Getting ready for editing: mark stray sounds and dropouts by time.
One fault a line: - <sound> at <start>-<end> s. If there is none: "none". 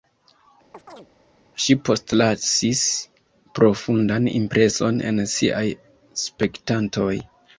- chirp at 0.7-1.1 s